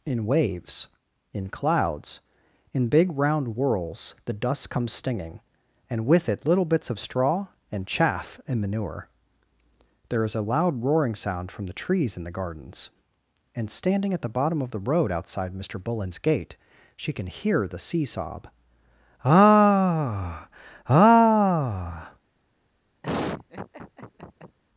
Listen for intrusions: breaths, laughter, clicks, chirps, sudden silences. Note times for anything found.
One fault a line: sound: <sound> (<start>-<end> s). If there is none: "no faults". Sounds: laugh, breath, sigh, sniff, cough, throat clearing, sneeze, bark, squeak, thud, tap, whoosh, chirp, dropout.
sound: laugh (23.0-24.6 s)